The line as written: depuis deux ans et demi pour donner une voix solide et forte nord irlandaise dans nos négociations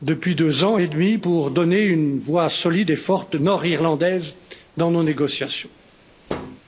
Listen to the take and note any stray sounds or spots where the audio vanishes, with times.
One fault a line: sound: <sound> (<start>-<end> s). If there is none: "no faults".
sound: thud (6.3-6.6 s)